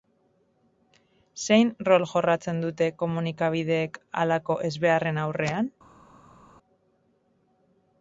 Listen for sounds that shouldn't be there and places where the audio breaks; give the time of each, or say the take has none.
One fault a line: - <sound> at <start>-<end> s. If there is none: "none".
none